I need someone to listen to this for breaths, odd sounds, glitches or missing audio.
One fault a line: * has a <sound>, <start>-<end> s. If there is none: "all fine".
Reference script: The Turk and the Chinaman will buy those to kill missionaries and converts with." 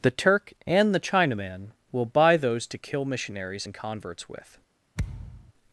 * has a thud, 5.0-5.5 s